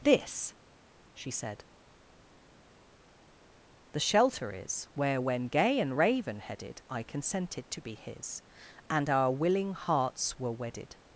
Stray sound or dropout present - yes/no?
no